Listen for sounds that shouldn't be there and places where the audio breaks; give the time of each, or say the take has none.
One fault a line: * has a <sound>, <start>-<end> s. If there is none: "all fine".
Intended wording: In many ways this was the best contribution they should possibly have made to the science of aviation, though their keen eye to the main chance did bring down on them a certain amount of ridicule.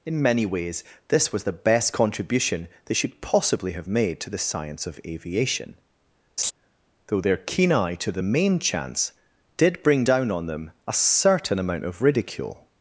* has a laugh, 6.4-6.5 s